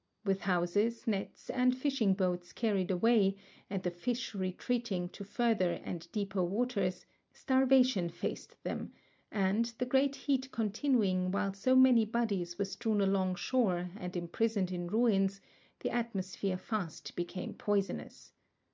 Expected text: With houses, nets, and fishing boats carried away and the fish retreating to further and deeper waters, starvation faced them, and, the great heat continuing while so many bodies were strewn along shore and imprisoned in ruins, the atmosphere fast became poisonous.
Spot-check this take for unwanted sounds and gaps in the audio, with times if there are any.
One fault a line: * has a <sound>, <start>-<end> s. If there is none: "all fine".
all fine